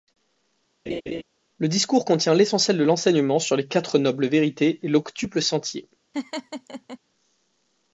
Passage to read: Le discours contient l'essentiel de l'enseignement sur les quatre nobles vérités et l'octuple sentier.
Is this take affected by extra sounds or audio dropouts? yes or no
yes